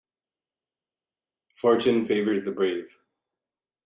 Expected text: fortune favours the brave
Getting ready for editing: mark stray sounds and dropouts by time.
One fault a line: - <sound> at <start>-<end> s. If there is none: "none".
none